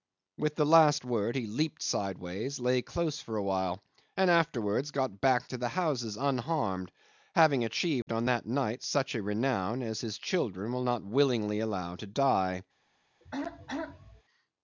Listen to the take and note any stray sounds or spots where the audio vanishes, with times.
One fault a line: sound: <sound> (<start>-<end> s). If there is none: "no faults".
sound: dropout (8.0-8.1 s)
sound: throat clearing (13.2-14.2 s)